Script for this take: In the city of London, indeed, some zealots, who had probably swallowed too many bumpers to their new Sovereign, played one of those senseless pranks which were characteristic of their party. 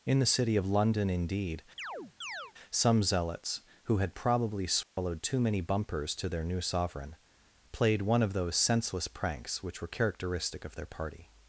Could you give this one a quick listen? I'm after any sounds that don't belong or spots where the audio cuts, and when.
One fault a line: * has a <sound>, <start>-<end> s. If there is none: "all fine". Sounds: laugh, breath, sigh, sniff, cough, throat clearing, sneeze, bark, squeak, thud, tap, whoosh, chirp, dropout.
* has a chirp, 1.8-2.5 s
* has a dropout, 4.8-5.0 s